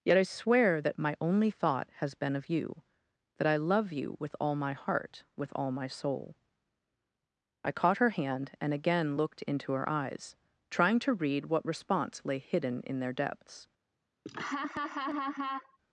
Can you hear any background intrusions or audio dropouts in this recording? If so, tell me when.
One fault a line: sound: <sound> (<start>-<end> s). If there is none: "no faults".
sound: laugh (14.3-15.8 s)